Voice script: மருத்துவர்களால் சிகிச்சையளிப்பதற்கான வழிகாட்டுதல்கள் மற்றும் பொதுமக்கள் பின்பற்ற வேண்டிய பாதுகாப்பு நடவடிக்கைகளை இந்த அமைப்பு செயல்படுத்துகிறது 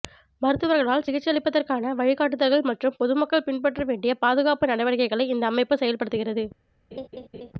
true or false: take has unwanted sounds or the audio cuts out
true